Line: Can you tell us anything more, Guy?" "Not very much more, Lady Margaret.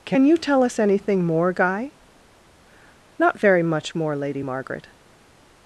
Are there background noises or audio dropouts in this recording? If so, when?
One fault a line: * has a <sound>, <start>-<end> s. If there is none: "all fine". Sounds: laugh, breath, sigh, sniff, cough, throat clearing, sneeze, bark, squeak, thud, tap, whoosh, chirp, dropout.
all fine